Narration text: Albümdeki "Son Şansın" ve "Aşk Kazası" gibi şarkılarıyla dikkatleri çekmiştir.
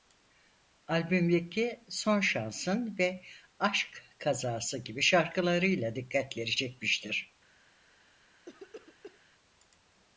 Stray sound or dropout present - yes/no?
yes